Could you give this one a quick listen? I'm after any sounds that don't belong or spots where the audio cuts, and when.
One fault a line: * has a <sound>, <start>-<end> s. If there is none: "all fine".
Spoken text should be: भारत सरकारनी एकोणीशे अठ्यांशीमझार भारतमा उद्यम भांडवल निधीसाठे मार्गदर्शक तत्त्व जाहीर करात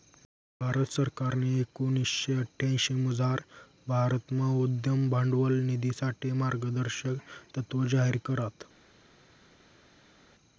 all fine